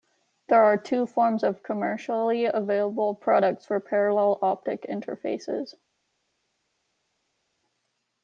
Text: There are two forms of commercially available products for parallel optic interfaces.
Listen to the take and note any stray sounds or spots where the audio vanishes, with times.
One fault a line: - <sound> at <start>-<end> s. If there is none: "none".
none